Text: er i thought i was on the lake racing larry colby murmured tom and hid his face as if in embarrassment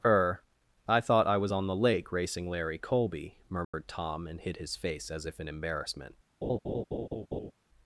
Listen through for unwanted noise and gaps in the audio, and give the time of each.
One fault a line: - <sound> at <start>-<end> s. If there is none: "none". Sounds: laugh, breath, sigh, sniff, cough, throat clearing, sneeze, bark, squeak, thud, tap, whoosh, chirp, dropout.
- dropout at 3.6-3.7 s
- laugh at 6.4-7.5 s